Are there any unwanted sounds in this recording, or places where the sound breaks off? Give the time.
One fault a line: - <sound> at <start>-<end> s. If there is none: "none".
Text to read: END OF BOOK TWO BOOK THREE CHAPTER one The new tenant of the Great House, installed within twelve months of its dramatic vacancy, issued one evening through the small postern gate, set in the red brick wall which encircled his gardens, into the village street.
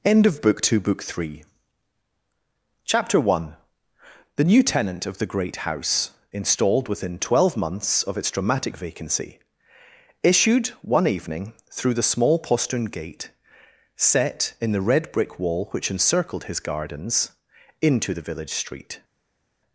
none